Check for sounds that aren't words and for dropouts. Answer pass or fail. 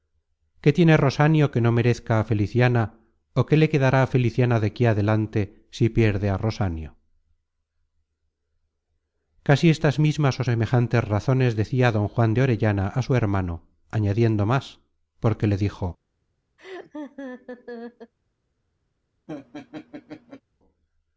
fail